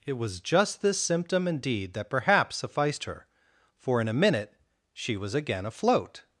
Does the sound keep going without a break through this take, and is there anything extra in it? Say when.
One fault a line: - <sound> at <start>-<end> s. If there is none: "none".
none